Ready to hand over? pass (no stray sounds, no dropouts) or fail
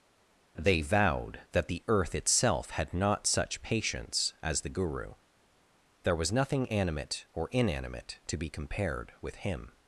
pass